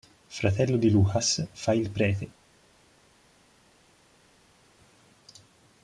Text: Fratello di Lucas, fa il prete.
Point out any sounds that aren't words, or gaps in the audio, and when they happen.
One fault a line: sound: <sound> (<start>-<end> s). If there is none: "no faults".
no faults